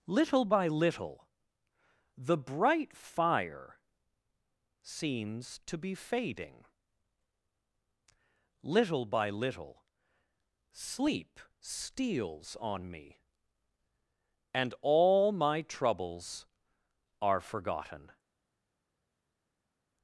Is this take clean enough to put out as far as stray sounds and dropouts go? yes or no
yes